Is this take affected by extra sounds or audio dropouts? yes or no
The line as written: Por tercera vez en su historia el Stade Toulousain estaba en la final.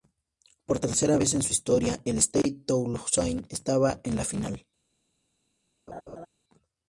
yes